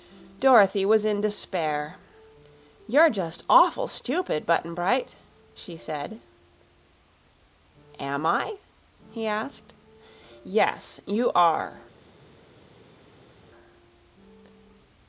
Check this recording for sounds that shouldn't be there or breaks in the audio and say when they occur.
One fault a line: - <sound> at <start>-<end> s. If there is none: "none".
none